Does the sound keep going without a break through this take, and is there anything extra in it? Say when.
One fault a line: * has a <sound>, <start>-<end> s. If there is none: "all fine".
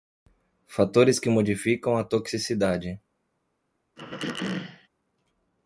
* has a throat clearing, 4.0-4.9 s